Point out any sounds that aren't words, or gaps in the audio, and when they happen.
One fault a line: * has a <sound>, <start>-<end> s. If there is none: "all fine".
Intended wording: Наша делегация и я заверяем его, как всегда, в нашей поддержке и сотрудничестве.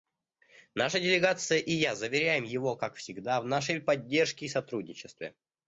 all fine